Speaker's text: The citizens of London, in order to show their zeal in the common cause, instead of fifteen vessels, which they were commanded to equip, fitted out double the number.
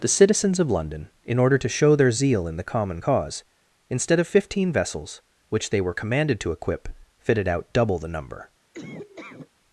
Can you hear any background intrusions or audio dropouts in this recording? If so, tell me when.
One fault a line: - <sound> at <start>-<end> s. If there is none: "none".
- laugh at 8.7-9.5 s